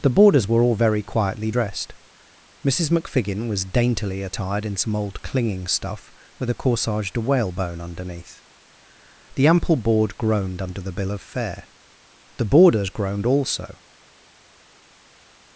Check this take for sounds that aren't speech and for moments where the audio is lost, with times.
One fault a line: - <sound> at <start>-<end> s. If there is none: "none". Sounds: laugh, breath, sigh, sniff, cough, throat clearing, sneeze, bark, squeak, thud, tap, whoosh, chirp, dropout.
none